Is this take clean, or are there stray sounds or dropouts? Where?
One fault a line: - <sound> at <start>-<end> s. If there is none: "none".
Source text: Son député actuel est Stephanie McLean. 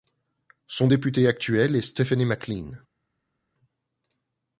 none